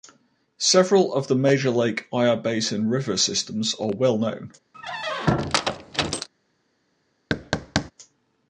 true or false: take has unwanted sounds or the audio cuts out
true